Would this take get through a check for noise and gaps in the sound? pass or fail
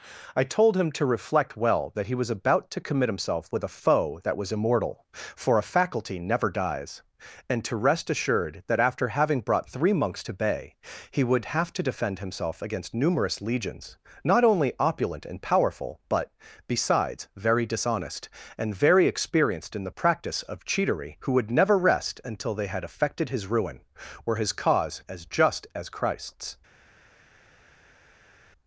pass